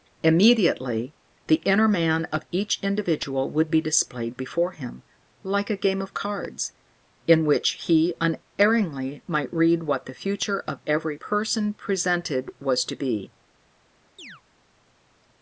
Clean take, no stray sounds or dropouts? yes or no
no